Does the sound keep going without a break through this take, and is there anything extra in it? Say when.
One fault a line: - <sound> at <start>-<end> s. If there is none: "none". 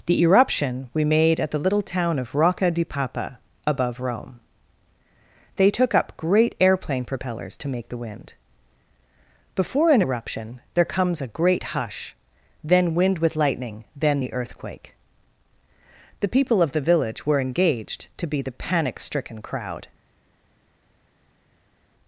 none